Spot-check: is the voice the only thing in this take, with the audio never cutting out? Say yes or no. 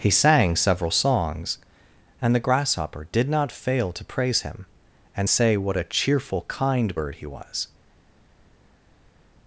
yes